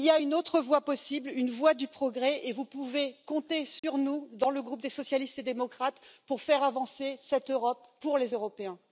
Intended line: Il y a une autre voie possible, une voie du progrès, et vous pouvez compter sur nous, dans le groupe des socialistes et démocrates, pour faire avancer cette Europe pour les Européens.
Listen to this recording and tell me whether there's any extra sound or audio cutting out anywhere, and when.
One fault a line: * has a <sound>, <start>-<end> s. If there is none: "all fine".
* has a dropout, 3.8-3.8 s